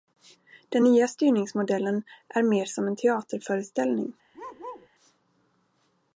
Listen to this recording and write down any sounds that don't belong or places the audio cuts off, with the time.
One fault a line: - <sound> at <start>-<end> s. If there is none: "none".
- bark at 4.3-4.9 s